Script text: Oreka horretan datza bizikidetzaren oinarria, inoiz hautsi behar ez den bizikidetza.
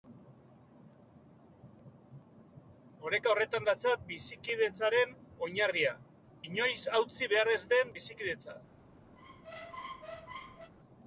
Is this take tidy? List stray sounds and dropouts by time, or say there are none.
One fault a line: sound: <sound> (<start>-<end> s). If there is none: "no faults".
sound: squeak (9.2-10.7 s)